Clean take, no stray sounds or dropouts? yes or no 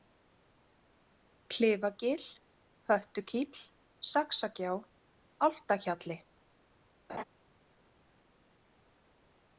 no